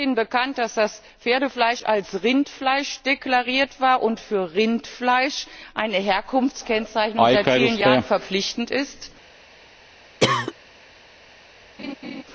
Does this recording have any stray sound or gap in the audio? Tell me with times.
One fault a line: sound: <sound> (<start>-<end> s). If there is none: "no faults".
sound: cough (10.2-10.5 s)
sound: laugh (11.8-12.2 s)